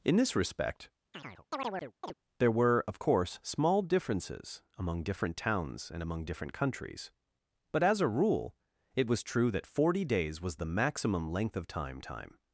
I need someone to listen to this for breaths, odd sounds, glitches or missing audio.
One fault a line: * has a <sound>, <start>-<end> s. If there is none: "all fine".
* has a chirp, 1.1-2.1 s